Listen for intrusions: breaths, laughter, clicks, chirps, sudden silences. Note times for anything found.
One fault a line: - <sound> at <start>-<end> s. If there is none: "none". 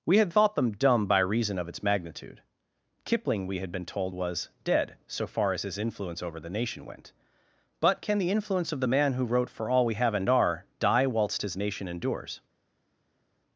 none